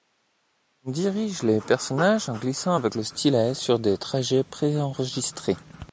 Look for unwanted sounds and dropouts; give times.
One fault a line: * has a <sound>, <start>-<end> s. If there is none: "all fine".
all fine